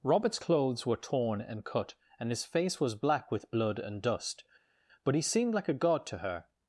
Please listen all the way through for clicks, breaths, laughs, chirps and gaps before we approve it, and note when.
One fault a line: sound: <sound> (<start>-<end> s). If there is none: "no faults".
no faults